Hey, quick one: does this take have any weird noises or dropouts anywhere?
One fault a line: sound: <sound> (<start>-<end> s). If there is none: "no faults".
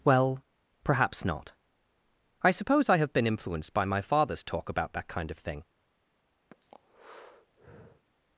sound: breath (6.5-8.1 s)